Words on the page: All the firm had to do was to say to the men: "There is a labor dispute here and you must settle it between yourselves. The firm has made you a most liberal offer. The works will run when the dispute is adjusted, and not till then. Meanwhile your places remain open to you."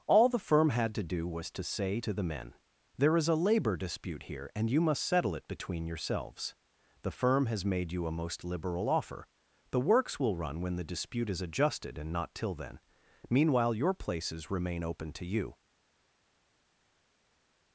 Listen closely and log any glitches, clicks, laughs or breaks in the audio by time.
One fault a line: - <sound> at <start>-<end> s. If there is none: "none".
none